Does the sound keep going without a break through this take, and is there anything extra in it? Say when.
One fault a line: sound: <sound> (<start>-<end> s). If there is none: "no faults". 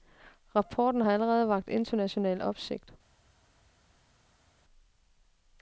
no faults